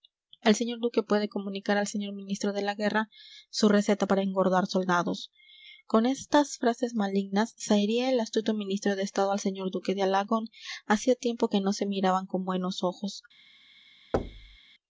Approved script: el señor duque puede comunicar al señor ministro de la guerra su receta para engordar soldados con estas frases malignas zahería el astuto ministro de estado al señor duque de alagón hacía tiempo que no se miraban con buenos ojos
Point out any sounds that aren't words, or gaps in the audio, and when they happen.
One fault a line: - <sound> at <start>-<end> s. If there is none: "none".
- thud at 14.1-14.6 s